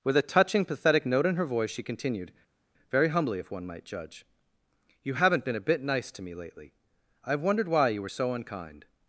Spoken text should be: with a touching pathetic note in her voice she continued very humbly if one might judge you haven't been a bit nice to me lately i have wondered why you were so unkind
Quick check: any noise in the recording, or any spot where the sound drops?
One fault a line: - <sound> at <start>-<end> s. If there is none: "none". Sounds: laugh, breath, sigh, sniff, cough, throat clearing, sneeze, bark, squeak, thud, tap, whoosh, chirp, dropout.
none